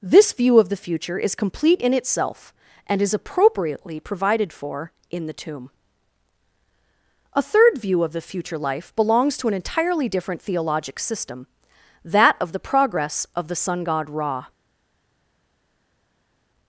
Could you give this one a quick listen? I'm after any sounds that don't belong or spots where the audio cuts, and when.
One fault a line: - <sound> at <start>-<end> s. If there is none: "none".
none